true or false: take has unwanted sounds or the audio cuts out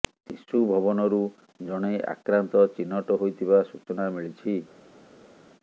false